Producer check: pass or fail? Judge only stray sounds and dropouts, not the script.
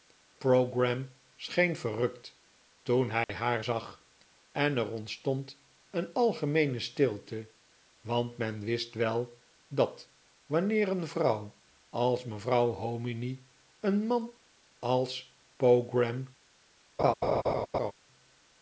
fail